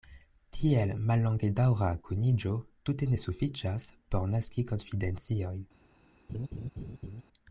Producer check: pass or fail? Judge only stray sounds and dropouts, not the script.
fail